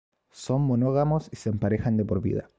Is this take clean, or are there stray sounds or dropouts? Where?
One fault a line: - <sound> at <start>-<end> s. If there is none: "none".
none